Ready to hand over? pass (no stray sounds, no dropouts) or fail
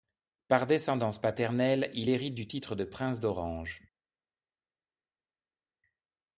pass